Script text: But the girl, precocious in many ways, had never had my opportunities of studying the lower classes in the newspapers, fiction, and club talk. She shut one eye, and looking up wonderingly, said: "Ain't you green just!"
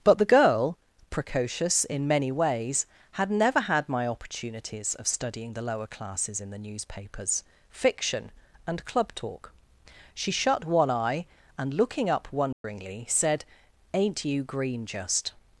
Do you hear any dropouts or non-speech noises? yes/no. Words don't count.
yes